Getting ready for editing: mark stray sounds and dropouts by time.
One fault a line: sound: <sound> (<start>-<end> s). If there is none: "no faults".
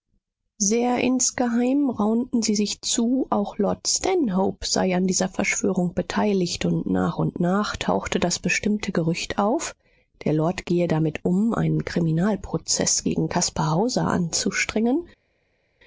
no faults